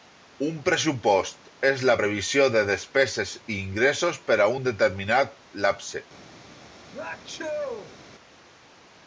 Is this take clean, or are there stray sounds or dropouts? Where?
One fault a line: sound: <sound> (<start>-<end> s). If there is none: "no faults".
sound: sneeze (6.9-8.0 s)